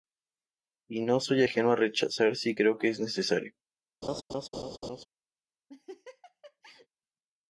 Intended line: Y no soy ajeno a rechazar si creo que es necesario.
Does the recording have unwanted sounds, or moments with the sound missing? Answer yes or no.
yes